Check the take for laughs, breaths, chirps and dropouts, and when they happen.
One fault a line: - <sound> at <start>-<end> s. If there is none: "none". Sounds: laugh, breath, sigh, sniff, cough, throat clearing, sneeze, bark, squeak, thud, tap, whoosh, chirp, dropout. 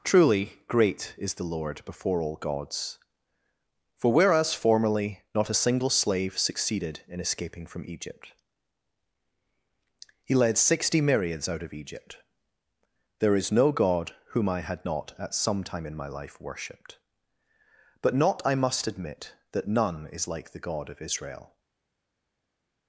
none